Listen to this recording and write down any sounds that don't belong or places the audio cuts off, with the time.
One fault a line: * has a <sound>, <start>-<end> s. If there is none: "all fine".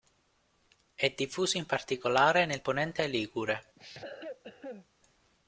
* has a cough, 3.8-4.9 s